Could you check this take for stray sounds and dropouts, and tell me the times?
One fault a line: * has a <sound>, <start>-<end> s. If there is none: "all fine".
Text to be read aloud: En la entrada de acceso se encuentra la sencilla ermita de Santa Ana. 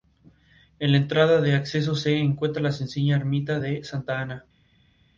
all fine